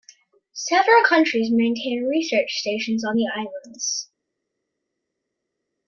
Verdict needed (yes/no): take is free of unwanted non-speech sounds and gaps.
yes